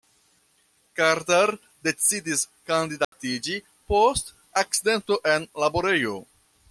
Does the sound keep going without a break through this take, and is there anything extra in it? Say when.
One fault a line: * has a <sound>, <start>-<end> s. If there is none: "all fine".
* has a dropout, 3.0-3.1 s